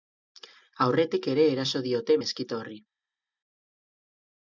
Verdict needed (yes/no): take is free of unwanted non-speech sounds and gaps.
yes